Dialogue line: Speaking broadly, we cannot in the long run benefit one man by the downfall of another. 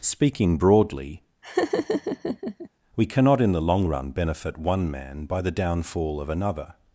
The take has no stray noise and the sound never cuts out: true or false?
false